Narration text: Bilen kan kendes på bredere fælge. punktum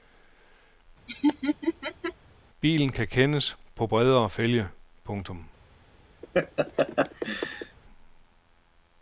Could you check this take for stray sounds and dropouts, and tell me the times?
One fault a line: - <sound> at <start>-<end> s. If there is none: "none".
- laugh at 1.1-2.1 s
- laugh at 6.2-7.8 s